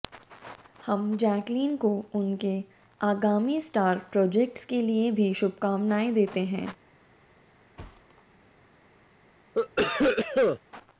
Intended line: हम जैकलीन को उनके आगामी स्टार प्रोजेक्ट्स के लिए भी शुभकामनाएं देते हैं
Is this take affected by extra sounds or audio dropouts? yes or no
yes